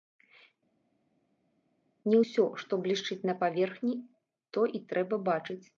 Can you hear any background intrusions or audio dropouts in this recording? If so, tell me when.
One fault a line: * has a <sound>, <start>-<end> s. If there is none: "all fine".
all fine